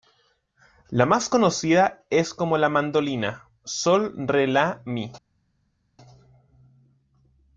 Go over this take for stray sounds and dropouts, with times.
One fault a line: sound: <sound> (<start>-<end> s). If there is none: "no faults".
no faults